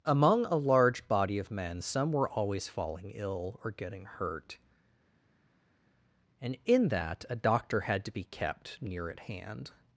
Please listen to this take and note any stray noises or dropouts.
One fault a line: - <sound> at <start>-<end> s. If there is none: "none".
none